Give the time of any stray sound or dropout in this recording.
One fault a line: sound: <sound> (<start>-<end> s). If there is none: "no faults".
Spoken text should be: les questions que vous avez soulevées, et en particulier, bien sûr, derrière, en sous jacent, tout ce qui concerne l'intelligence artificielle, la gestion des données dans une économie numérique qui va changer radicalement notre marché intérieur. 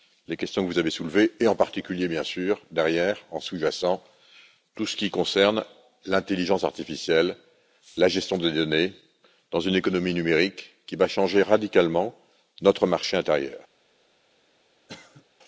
sound: cough (14.9-15.3 s)